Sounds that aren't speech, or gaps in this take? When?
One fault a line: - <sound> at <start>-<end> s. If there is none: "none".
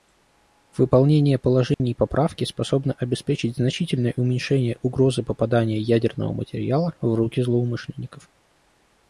- dropout at 1.7-1.8 s